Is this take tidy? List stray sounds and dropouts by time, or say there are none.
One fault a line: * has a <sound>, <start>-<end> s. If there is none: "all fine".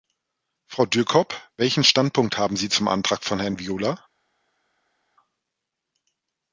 all fine